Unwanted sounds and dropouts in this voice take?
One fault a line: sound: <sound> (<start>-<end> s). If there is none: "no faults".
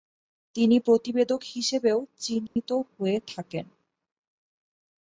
sound: dropout (2.5-2.6 s)